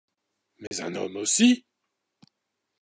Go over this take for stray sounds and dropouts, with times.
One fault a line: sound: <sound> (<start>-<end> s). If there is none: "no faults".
sound: dropout (0.7-0.7 s)